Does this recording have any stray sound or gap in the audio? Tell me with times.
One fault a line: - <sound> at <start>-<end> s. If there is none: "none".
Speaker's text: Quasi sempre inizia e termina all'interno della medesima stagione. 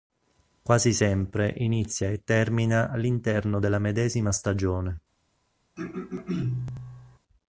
- throat clearing at 5.8-7.2 s